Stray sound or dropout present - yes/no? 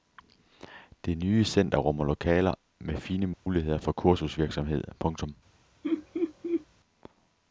yes